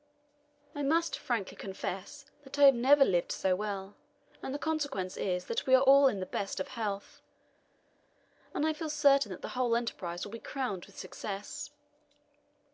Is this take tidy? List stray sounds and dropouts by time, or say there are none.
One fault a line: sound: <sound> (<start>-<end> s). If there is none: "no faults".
no faults